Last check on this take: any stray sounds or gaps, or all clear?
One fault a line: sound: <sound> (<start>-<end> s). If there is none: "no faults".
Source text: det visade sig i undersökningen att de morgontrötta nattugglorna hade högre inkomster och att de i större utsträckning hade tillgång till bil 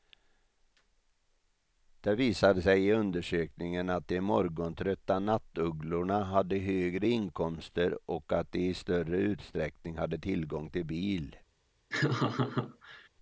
sound: laugh (11.9-13.1 s)